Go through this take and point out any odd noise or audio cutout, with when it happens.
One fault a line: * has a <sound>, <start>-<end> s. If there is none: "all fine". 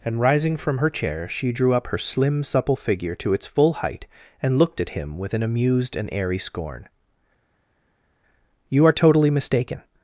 all fine